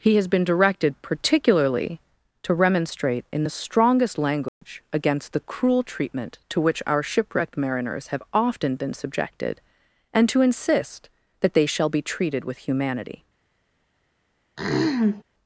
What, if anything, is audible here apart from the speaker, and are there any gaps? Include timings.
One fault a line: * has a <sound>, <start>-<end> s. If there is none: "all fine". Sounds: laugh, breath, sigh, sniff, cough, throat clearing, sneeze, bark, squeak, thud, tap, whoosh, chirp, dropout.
* has a dropout, 4.5-4.6 s
* has a throat clearing, 14.6-15.2 s